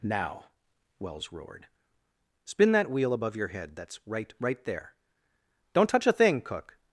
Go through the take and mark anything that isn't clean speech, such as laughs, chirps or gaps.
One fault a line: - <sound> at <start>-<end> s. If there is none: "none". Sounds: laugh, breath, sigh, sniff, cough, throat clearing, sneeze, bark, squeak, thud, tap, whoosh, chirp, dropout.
none